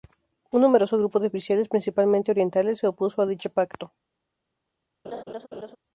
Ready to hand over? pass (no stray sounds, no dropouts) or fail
fail